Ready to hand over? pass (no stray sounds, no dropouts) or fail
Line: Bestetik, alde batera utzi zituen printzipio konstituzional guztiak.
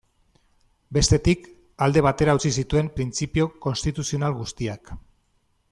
pass